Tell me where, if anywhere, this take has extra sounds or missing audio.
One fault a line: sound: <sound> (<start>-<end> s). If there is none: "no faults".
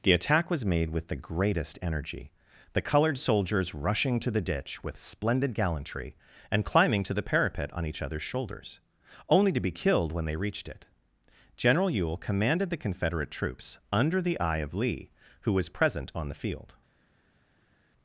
no faults